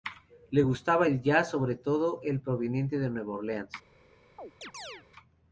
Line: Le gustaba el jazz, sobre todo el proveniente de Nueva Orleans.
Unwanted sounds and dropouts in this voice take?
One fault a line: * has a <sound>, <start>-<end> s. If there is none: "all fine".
* has a chirp, 4.4-5.0 s